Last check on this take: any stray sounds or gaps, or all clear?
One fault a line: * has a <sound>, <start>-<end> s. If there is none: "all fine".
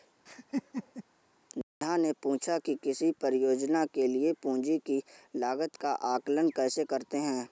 * has a laugh, 0.3-1.0 s